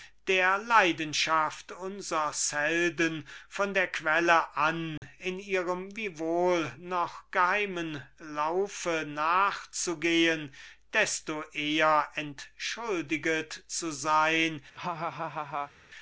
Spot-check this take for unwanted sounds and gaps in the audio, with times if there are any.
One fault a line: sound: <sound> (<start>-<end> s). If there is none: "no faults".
sound: dropout (5.0-5.0 s)
sound: laugh (14.7-15.7 s)